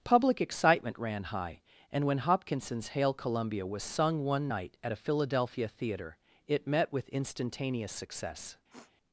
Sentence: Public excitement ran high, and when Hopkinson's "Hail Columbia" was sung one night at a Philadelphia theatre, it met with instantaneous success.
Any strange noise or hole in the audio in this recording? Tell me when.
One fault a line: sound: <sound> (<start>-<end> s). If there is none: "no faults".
sound: sniff (8.7-8.9 s)